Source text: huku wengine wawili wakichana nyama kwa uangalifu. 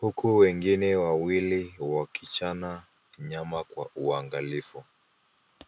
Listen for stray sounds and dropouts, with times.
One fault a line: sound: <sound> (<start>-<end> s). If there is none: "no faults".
no faults